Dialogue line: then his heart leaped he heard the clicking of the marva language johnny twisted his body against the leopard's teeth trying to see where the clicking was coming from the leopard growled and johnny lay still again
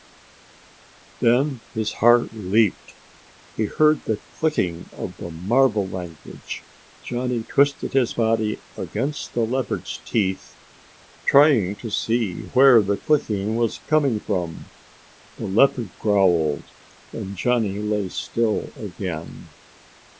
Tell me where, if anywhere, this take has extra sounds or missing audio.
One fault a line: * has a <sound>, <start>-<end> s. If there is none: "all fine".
all fine